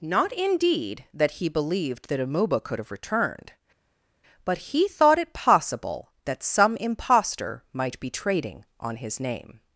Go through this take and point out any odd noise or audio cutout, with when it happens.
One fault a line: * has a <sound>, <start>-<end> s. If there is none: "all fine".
all fine